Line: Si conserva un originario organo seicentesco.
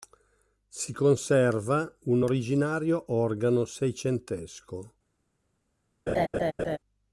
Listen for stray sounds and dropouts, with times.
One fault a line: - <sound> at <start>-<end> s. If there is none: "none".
- laugh at 6.1-6.8 s